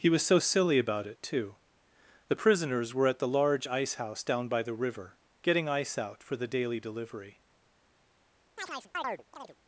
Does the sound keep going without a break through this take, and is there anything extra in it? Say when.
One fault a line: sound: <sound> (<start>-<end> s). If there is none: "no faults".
sound: chirp (8.6-9.6 s)